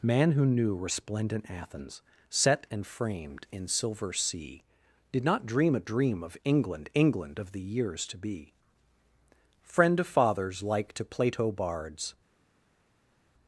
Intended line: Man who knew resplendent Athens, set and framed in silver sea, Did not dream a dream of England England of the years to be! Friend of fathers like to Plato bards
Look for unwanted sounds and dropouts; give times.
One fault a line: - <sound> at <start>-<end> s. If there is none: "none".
none